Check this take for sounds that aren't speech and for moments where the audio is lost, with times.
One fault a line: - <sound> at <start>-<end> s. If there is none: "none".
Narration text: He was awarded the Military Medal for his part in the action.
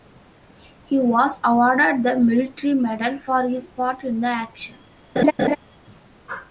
- laugh at 5.2-5.6 s